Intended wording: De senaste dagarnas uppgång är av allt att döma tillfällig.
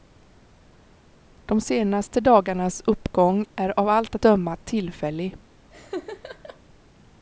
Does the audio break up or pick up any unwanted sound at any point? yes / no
yes